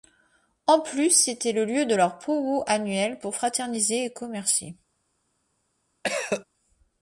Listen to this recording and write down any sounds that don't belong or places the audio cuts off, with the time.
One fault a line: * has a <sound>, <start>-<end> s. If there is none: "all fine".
* has a cough, 6.0-6.5 s